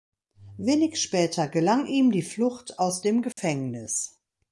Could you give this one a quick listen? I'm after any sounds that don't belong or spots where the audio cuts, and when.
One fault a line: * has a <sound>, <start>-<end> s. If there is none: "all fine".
* has a dropout, 3.3-3.4 s